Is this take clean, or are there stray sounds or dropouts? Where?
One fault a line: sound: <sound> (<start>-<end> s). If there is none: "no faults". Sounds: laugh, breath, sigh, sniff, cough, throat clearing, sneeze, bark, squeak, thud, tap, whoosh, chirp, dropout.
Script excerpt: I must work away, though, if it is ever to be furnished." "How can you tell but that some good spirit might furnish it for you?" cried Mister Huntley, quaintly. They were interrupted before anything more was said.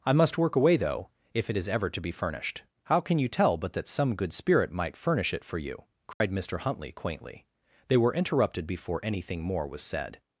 sound: dropout (6.1-6.2 s)